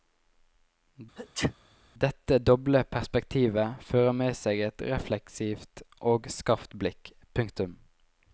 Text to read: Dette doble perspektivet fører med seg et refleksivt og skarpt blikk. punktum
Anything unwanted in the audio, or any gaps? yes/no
yes